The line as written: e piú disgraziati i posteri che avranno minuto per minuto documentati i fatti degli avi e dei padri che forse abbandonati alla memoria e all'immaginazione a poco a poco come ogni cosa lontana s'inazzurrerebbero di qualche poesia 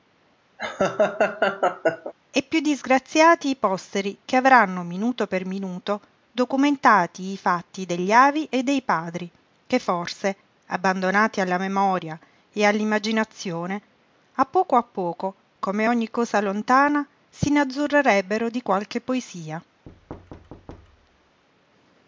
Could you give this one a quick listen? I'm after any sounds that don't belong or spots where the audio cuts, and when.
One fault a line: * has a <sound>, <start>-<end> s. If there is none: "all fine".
* has a laugh, 0.6-2.1 s
* has a thud, 19.9-21.4 s